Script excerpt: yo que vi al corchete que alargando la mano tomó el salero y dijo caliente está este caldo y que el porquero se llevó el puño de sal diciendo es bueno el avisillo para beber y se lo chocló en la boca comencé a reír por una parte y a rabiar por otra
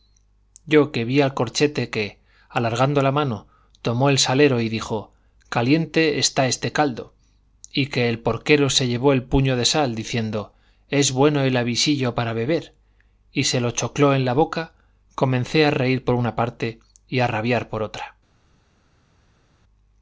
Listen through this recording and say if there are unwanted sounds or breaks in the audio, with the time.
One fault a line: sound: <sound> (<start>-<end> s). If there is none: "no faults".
no faults